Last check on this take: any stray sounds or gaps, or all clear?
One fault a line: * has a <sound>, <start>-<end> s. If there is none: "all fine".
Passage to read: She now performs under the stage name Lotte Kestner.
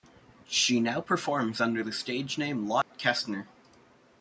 * has a dropout, 2.8-2.9 s